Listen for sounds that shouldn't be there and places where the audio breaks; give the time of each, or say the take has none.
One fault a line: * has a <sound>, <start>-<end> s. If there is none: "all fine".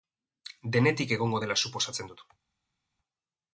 all fine